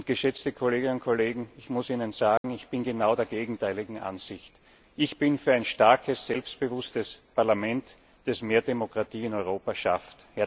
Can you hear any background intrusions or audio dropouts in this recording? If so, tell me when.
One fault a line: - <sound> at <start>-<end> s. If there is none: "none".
- dropout at 2.4-2.4 s